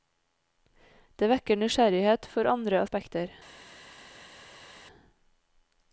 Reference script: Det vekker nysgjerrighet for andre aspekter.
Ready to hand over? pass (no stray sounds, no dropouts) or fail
pass